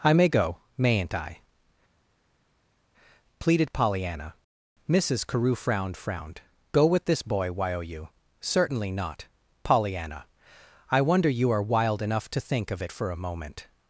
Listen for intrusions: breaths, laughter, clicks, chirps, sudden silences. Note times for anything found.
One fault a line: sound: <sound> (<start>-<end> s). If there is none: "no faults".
no faults